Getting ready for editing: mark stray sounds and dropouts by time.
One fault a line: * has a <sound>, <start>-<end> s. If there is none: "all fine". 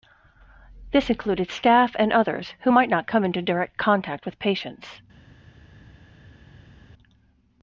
all fine